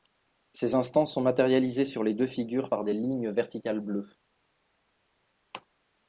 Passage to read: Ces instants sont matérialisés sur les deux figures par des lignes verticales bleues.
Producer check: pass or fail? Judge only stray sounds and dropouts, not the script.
pass